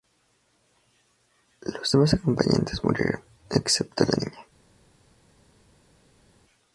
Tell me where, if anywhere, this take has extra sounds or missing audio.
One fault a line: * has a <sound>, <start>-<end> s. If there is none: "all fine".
all fine